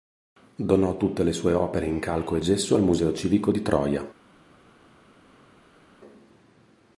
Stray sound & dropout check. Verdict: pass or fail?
pass